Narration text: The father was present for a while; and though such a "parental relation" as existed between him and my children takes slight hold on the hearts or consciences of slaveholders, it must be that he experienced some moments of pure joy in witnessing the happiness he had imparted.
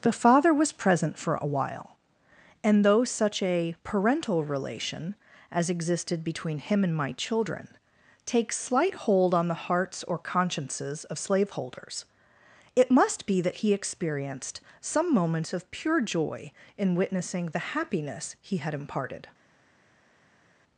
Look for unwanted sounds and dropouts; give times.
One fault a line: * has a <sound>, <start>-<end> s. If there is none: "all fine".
all fine